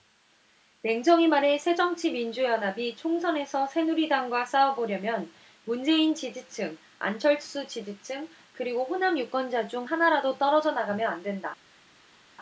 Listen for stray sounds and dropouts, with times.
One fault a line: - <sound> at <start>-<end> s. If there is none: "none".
none